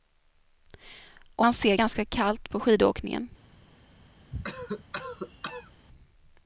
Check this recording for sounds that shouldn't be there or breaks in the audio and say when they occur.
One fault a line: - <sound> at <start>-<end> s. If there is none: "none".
- cough at 4.3-5.7 s